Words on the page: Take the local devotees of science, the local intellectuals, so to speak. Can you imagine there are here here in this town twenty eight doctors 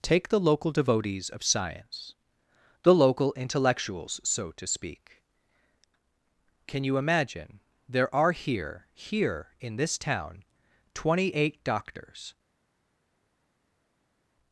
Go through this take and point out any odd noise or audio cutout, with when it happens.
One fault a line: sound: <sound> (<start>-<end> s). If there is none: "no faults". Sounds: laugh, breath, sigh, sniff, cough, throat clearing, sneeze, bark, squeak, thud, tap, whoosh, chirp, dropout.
no faults